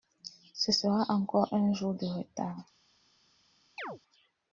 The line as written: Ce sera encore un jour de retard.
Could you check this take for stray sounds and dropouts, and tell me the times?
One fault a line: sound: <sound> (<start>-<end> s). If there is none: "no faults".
sound: chirp (3.8-4.0 s)